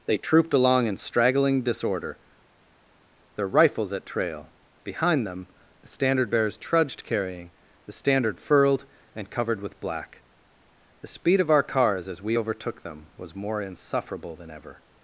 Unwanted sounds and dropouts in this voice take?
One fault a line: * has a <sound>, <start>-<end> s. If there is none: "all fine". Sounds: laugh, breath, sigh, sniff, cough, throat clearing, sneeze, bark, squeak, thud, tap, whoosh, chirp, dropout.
all fine